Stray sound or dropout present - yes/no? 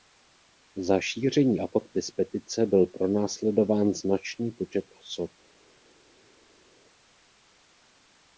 no